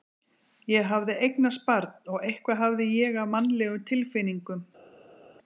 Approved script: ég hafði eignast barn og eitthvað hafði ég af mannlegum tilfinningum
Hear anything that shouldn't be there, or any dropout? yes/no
no